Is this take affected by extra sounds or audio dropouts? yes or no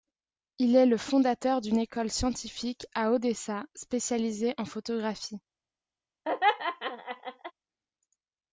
yes